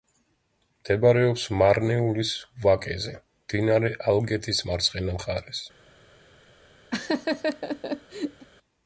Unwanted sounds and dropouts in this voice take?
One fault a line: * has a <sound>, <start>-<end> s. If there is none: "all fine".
* has a laugh, 6.9-8.5 s